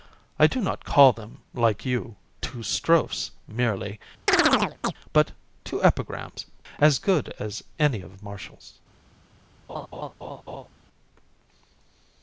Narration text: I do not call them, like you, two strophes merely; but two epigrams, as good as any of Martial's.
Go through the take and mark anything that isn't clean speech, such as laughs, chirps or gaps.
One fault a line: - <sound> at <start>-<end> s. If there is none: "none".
- chirp at 4.3-4.9 s
- laugh at 9.7-10.7 s